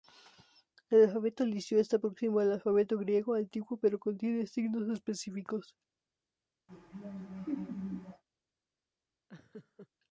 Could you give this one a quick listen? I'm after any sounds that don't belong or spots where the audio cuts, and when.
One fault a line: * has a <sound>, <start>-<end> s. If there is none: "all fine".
* has a laugh, 6.7-8.2 s
* has a laugh, 9.3-9.9 s